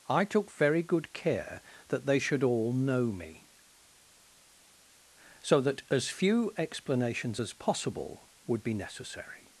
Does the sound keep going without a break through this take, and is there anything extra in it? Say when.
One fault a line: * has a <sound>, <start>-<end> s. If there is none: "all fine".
all fine